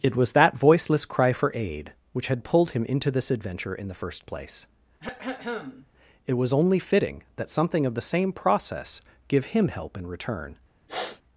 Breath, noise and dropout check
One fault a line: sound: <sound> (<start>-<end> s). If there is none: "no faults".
sound: throat clearing (5.0-5.9 s)
sound: sniff (10.9-11.2 s)